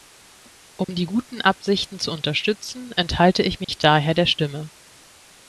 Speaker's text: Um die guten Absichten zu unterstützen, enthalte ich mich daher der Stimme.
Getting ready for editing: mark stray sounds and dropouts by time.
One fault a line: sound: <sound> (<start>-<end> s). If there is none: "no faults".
sound: dropout (0.8-0.9 s)
sound: dropout (3.6-3.7 s)